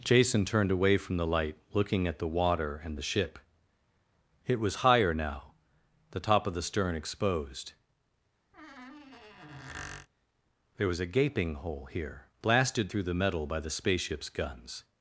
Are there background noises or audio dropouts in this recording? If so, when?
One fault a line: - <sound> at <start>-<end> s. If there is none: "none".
- squeak at 8.5-10.1 s